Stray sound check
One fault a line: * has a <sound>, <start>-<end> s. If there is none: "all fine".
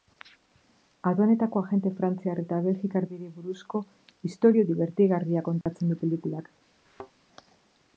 * has a dropout, 5.6-5.7 s
* has a thud, 6.9-7.1 s